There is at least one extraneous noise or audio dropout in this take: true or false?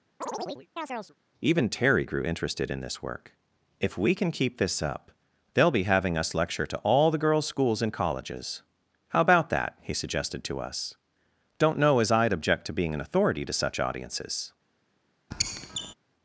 true